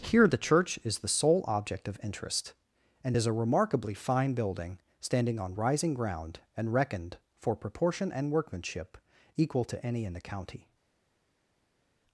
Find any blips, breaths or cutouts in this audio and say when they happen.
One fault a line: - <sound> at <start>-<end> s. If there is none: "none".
none